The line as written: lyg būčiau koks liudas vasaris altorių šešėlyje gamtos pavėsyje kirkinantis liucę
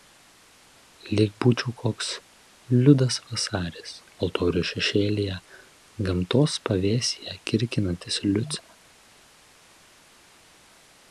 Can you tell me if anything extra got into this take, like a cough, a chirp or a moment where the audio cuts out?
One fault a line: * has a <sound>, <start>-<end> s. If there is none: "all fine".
all fine